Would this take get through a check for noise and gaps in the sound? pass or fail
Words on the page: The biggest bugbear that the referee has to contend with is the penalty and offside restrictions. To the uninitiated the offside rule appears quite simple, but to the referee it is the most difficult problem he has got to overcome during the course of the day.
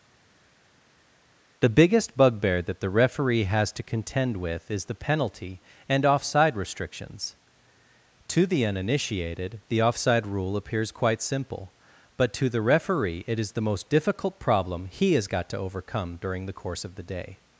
pass